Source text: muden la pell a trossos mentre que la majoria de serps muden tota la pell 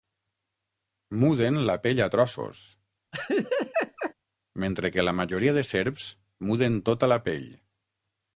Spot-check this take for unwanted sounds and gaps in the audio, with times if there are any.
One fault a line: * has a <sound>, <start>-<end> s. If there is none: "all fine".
* has a laugh, 3.1-4.1 s